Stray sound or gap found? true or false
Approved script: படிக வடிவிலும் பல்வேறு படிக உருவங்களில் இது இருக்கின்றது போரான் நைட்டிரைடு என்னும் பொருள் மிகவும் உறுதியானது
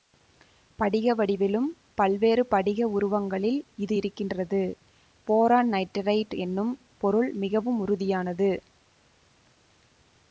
false